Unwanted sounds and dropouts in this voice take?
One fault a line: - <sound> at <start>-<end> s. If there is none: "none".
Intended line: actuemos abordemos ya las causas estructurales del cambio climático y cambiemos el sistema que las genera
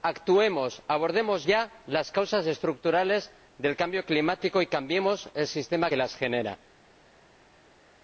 none